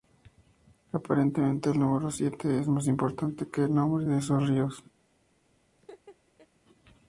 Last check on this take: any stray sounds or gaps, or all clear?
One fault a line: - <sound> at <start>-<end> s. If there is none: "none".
- laugh at 5.8-6.5 s